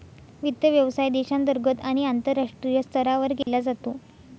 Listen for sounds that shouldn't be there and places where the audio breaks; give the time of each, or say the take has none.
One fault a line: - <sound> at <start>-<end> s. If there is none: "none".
- dropout at 3.4-3.5 s